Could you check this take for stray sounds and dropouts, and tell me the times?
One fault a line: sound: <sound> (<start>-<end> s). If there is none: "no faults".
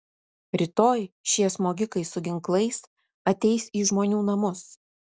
no faults